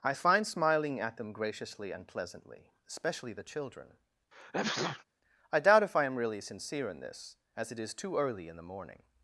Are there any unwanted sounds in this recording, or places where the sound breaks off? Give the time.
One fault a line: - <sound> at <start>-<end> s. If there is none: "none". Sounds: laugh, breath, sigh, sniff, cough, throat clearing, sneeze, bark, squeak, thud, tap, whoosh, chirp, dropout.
- sneeze at 4.3-5.0 s